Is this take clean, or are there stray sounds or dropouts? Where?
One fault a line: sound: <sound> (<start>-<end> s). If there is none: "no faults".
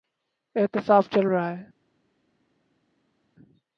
no faults